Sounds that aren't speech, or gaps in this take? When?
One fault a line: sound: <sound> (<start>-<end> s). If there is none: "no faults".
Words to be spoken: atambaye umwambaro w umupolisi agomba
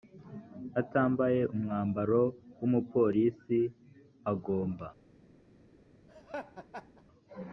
sound: laugh (6.1-7.0 s)